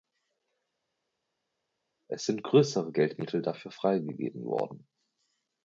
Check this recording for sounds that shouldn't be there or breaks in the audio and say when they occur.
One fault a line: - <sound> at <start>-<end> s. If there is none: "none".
none